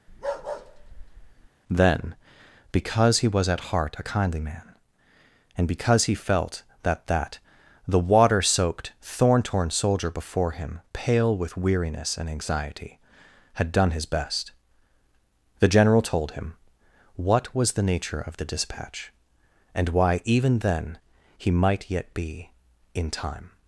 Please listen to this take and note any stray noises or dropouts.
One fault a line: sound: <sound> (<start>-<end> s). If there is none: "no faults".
sound: bark (0.1-1.5 s)